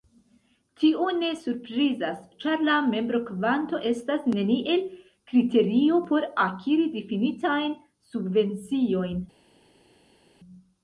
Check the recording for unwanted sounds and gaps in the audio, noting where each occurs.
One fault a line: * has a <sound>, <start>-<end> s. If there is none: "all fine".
all fine